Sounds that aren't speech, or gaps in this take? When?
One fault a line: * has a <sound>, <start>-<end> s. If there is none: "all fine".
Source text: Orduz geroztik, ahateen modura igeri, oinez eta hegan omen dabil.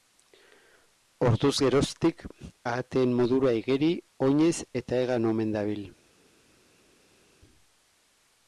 all fine